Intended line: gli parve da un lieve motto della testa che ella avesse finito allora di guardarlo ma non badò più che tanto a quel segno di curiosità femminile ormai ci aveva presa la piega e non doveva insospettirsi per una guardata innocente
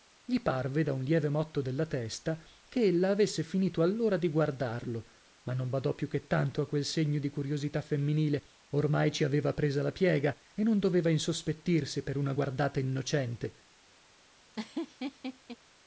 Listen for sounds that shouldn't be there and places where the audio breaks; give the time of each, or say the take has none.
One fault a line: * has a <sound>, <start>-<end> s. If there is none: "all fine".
* has a laugh, 14.5-15.6 s